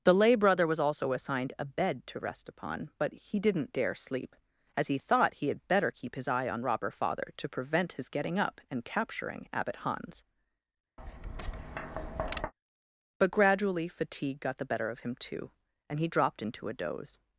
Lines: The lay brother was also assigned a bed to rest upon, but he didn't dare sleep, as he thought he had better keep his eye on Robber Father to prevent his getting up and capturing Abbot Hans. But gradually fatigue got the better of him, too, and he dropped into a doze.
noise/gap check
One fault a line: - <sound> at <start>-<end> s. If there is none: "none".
- tap at 11.0-12.5 s